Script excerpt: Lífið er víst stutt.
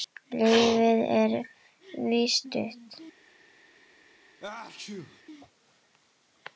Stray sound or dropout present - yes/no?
yes